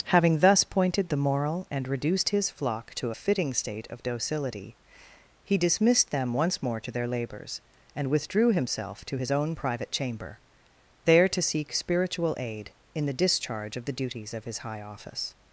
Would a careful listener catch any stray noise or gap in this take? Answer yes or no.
no